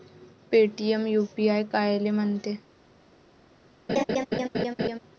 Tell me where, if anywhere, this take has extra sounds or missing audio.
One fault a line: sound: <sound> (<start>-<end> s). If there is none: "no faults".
sound: laugh (3.9-5.0 s)